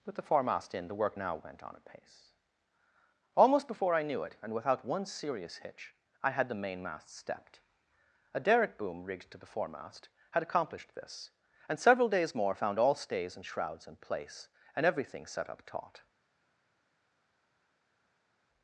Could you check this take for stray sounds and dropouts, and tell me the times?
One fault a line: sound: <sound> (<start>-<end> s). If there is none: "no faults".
no faults